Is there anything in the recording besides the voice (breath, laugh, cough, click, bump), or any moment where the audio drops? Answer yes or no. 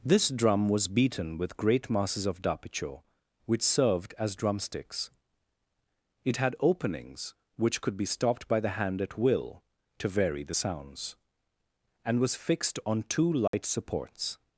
yes